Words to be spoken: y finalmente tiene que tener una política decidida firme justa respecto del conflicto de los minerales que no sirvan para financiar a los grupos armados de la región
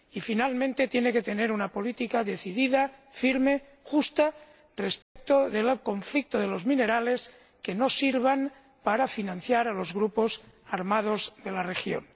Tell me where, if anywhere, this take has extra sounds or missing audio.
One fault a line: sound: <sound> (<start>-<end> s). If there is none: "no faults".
sound: dropout (5.0-5.2 s)